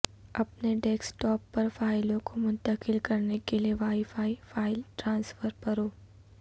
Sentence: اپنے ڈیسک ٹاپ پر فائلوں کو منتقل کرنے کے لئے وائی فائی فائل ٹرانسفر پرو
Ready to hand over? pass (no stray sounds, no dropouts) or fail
pass